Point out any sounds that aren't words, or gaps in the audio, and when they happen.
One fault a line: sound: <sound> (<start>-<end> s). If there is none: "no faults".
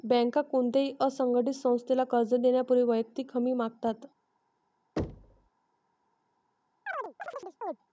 sound: thud (5.0-5.5 s)
sound: chirp (6.9-7.8 s)